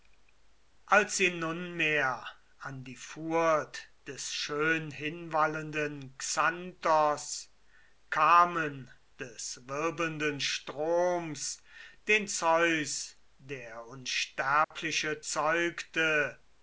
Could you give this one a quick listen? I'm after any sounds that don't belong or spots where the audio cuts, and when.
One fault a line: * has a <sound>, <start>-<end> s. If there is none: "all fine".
* has a dropout, 14.6-14.7 s